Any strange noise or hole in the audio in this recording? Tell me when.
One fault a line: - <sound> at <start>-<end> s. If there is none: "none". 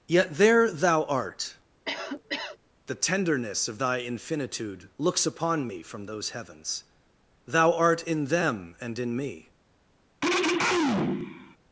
- cough at 1.9-2.6 s
- throat clearing at 10.2-11.6 s